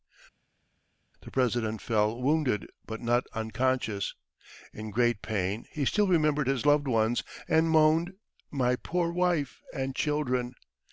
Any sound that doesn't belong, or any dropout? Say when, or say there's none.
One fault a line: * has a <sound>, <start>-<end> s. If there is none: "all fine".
all fine